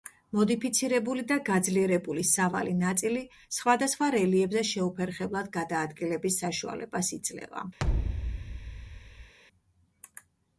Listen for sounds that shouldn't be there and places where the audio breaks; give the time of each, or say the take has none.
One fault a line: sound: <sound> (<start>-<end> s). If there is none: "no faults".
sound: thud (7.8-9.3 s)